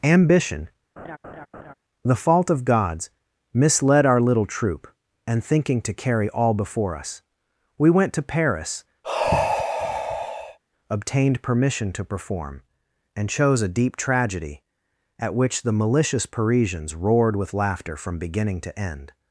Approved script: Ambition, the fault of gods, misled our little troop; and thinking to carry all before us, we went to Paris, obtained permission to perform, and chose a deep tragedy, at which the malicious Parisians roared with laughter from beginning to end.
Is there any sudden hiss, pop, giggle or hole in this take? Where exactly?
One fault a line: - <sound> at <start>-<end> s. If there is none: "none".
- laugh at 1.0-1.7 s
- sigh at 9.0-10.6 s